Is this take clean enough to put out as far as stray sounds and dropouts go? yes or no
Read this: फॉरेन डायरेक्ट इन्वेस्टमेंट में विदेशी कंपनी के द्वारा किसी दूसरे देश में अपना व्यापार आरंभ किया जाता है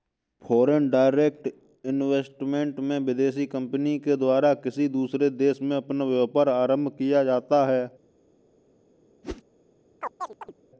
no